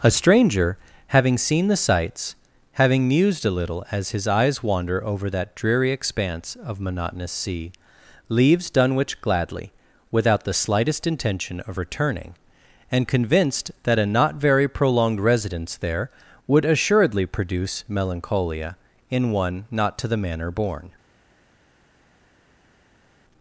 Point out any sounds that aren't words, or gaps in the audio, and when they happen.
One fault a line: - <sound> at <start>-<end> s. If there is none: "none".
none